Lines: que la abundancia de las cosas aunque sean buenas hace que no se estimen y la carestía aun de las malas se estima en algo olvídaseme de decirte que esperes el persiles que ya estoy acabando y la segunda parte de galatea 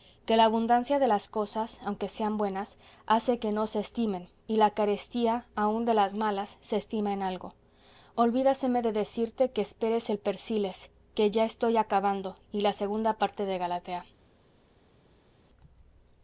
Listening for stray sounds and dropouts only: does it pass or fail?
pass